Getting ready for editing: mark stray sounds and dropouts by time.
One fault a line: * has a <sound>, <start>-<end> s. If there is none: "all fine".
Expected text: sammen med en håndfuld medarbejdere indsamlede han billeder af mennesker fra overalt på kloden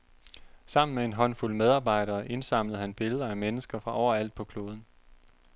all fine